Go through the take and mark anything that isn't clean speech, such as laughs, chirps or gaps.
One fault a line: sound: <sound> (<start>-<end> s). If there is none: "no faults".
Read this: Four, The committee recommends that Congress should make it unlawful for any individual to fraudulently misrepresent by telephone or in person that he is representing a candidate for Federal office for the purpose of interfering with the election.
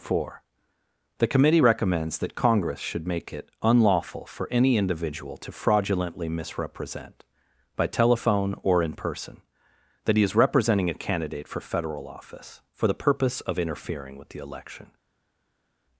no faults